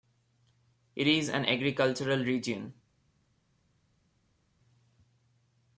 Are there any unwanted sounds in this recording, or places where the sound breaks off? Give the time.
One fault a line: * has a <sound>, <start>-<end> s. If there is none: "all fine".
all fine